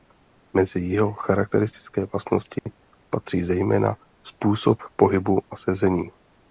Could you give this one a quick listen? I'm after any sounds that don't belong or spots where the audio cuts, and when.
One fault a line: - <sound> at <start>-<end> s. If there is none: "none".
- dropout at 2.6-2.7 s